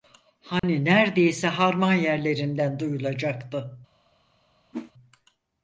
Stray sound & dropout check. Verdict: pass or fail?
fail